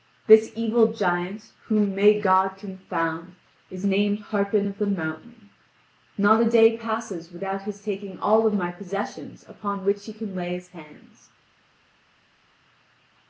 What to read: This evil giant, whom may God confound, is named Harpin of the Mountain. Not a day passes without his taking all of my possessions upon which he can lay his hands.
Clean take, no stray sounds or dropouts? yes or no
yes